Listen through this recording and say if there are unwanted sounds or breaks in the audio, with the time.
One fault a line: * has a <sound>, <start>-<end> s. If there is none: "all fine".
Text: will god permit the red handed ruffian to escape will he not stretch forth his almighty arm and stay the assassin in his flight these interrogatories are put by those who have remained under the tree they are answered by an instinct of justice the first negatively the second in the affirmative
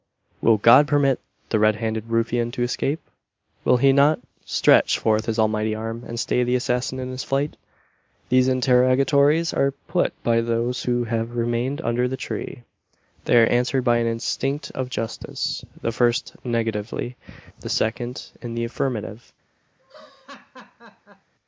* has a laugh, 19.8-21.3 s